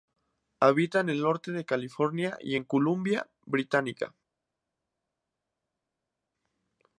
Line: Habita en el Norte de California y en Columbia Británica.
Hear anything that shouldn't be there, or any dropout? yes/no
no